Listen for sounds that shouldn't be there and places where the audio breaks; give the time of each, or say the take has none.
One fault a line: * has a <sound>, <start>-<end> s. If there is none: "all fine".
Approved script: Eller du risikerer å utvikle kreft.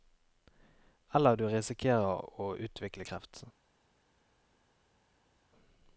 all fine